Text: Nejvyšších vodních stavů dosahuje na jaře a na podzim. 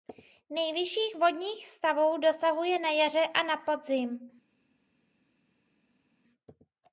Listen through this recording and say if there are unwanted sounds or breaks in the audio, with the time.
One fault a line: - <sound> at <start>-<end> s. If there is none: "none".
none